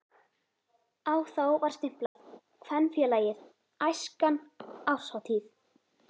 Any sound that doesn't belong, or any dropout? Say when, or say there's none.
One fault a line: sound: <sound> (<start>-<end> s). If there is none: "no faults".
sound: dropout (2.1-2.2 s)